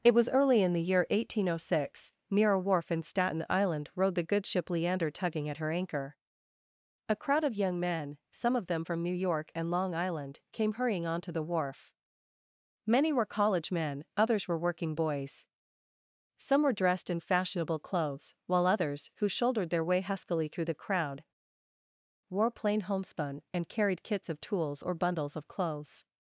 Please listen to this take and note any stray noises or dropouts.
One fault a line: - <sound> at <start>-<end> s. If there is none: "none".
none